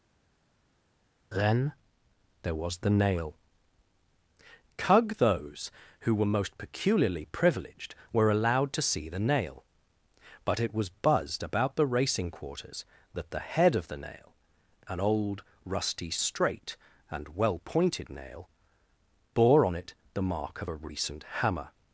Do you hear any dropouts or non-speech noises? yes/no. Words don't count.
no